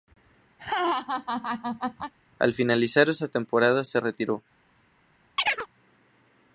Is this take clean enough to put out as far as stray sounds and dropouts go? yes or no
no